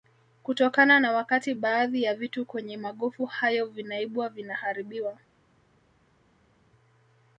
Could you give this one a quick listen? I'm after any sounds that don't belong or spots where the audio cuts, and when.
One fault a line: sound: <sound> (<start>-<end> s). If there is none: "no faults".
no faults